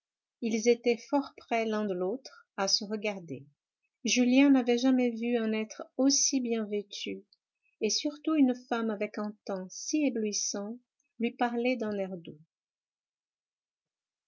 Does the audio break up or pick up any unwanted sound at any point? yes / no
no